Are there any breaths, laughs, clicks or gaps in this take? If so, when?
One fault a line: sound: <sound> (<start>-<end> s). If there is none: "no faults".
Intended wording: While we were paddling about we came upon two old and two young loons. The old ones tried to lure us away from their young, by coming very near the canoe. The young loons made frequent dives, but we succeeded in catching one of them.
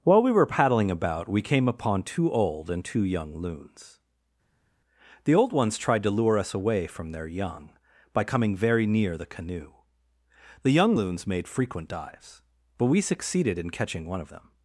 no faults